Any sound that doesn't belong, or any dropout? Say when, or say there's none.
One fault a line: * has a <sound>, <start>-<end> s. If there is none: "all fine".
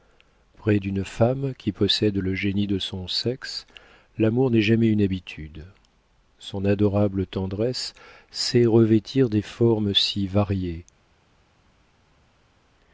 all fine